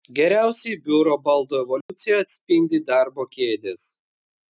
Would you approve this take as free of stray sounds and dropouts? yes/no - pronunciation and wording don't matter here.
no